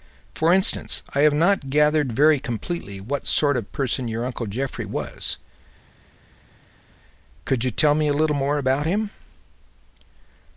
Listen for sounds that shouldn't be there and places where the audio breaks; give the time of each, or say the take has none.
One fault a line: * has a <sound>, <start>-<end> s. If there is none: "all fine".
all fine